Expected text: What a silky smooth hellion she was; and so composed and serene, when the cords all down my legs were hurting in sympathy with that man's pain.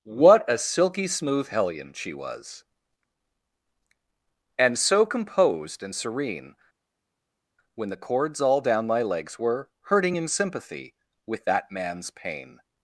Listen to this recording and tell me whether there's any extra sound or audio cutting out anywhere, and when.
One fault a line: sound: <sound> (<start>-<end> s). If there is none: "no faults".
no faults